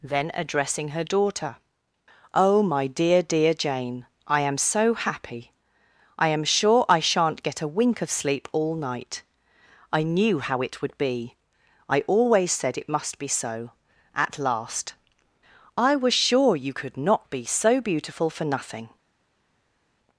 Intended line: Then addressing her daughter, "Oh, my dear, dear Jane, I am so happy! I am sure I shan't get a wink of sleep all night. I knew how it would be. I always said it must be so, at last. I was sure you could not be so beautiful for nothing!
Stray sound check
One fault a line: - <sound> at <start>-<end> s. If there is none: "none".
none